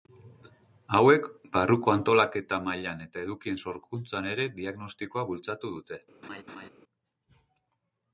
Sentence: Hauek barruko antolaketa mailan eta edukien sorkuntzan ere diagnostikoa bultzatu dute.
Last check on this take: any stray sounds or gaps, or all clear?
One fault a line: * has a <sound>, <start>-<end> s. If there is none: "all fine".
* has a laugh, 6.2-6.7 s